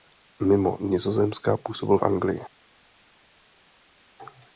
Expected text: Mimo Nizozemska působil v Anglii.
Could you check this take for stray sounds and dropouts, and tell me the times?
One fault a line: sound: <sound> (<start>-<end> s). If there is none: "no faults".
no faults